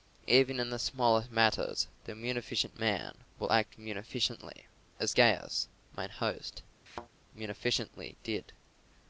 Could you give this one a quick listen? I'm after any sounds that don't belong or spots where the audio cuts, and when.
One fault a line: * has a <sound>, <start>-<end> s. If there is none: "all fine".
* has a thud, 6.9-7.1 s